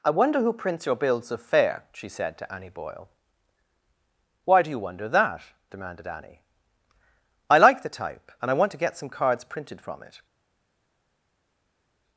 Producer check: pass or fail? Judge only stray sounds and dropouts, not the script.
pass